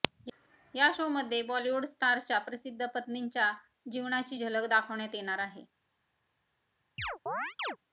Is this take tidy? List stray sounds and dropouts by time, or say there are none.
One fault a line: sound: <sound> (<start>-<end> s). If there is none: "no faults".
sound: chirp (7.0-7.8 s)